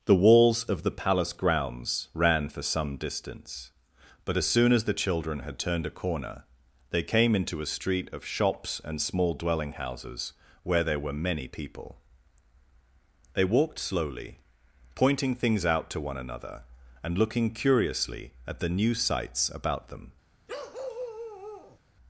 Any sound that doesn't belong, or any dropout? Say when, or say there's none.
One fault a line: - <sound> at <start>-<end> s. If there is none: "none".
- bark at 20.5-21.8 s